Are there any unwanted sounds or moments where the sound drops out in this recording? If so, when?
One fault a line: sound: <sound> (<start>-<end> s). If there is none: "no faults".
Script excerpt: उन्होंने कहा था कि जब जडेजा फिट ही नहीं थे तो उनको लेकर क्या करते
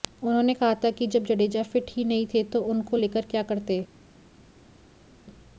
no faults